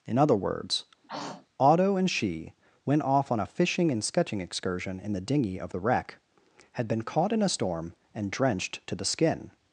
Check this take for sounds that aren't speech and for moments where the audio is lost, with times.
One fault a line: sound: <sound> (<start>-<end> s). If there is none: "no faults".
sound: throat clearing (1.0-1.5 s)